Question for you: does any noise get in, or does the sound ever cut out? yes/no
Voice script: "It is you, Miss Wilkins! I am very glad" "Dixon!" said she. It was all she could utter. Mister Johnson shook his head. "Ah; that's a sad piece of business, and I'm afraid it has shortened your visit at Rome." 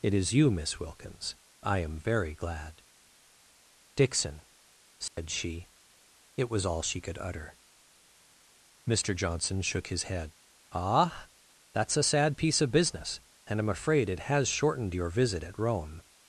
yes